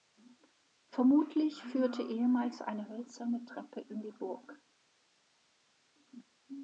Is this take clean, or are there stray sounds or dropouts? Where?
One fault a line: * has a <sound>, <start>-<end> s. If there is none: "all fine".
all fine